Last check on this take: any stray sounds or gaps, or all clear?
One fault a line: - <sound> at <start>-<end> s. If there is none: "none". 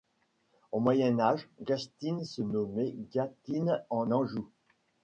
none